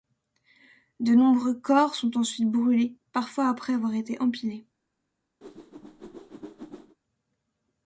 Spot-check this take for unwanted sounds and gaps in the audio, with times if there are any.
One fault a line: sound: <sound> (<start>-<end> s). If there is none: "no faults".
sound: whoosh (5.4-7.0 s)